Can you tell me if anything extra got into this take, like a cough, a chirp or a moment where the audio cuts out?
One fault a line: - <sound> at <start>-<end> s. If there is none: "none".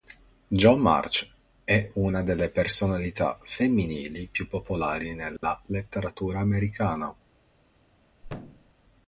- dropout at 5.4-5.4 s
- thud at 8.2-8.7 s